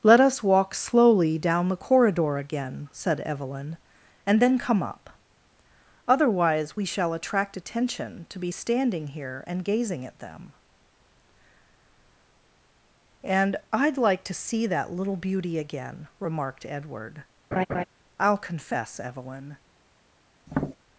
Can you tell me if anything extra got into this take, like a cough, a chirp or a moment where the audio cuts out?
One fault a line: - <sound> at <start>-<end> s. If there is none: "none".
- laugh at 17.5-17.8 s
- tap at 20.5-20.8 s